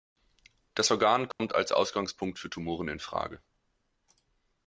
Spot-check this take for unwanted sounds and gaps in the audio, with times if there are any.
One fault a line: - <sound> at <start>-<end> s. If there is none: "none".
- dropout at 1.3-1.4 s